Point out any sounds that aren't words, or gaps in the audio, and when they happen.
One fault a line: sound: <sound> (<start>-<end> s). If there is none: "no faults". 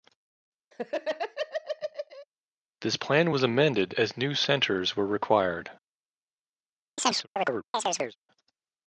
sound: laugh (0.7-2.3 s)
sound: chirp (7.0-8.2 s)